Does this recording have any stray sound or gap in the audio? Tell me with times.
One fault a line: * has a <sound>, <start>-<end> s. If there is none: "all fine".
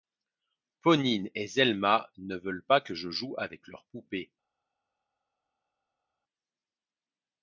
all fine